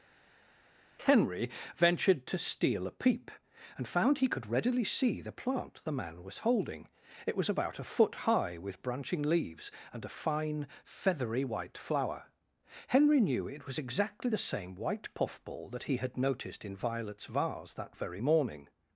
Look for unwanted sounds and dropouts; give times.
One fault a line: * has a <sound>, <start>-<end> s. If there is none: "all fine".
all fine